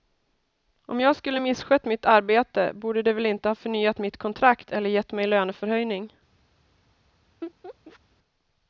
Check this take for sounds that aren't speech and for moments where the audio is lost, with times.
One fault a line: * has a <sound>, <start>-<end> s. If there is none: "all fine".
* has a laugh, 7.4-8.0 s